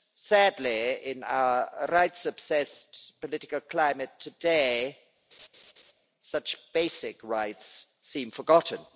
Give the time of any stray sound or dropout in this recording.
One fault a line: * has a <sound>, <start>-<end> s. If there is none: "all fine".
* has a laugh, 5.3-5.9 s